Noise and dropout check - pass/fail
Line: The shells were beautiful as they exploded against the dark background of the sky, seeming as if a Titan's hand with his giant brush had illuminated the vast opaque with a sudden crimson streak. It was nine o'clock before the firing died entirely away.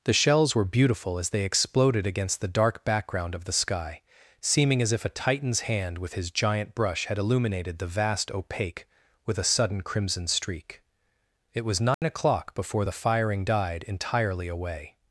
fail